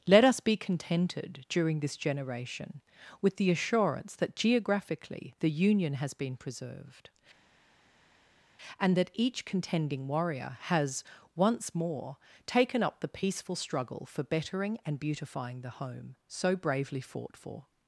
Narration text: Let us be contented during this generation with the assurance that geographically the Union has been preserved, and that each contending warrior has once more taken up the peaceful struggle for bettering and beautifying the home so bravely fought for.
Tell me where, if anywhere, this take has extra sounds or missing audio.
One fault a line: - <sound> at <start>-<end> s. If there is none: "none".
none